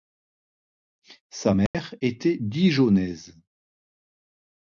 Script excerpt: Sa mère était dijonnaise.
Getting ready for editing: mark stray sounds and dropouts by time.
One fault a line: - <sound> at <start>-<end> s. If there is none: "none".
- dropout at 1.7-1.7 s